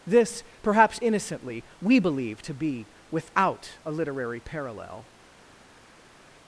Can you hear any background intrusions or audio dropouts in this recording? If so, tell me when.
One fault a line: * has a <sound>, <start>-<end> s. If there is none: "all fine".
all fine